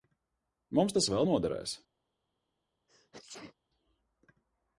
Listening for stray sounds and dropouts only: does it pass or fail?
fail